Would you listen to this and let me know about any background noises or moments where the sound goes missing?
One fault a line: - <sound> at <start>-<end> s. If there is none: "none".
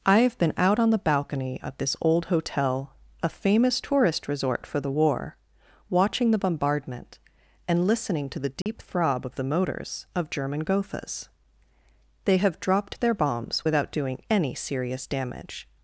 - dropout at 8.6-8.7 s